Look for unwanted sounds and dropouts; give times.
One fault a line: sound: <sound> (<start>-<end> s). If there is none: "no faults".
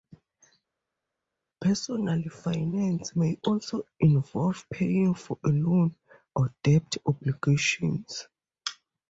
no faults